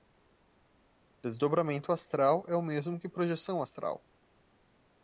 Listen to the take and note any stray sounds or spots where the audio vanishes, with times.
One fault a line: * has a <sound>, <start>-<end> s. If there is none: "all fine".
all fine